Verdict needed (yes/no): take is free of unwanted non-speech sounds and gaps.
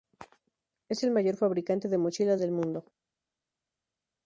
yes